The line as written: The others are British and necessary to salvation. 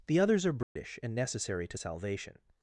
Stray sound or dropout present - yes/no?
yes